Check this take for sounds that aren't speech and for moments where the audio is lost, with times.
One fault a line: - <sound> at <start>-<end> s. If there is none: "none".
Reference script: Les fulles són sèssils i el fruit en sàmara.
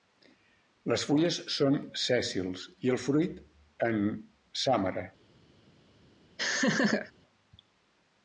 - laugh at 6.4-7.1 s